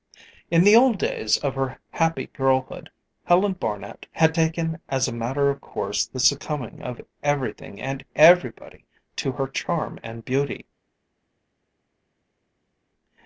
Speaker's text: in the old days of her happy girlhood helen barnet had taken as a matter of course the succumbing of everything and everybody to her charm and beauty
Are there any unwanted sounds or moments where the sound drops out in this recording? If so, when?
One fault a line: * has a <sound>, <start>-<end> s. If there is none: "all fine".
all fine